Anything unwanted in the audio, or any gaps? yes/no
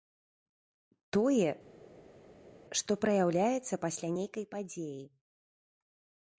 no